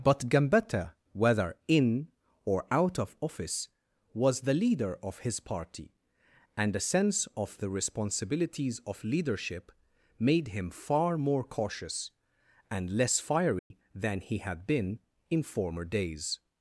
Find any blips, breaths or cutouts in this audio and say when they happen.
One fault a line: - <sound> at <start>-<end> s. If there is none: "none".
- dropout at 13.6-13.7 s